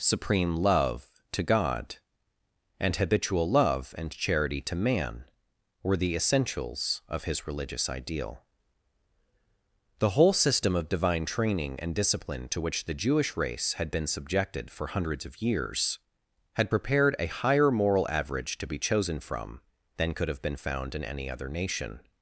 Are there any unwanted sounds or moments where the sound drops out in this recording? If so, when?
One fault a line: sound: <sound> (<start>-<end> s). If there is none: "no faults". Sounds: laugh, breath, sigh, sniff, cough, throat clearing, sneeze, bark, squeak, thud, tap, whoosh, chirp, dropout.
no faults